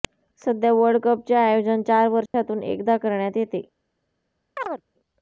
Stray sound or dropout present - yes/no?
yes